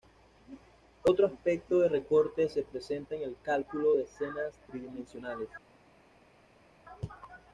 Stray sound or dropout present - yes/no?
no